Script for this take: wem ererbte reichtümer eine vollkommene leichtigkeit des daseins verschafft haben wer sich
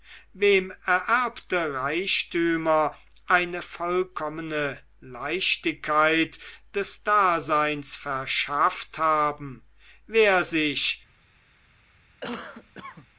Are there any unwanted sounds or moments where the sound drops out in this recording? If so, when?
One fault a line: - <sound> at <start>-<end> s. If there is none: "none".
- cough at 12.2-13.1 s